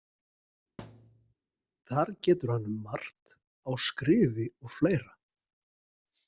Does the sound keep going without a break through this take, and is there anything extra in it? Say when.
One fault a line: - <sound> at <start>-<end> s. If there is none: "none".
- thud at 0.8-1.3 s